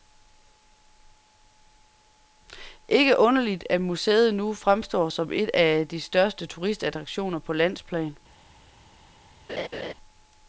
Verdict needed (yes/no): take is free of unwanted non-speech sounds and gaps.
no